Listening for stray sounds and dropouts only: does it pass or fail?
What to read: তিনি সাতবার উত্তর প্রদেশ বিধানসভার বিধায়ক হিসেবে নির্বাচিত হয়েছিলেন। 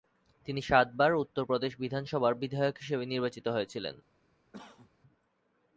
fail